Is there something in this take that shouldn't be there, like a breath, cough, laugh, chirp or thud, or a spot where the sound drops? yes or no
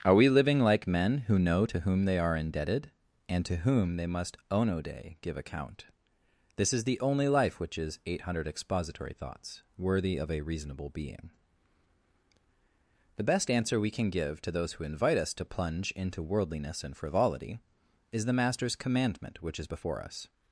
no